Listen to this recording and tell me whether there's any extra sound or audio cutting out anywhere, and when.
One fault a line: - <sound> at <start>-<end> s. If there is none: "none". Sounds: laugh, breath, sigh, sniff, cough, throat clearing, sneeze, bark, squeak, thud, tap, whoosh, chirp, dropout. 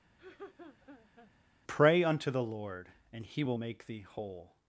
- laugh at 0.2-1.3 s